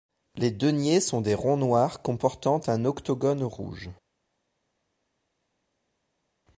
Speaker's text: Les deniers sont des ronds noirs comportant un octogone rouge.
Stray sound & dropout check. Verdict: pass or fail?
pass